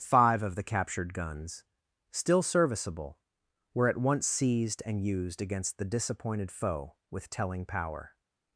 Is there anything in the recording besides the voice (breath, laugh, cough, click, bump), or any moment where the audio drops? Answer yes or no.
no